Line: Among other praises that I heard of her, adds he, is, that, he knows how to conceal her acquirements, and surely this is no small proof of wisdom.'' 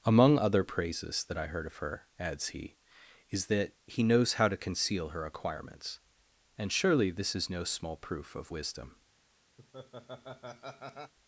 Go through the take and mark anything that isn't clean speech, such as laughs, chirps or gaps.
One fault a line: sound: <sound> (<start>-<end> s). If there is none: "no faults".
sound: laugh (9.6-11.1 s)